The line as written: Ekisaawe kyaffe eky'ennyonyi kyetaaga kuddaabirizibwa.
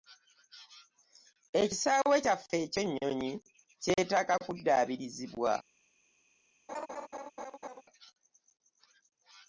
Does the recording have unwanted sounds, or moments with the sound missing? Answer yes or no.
yes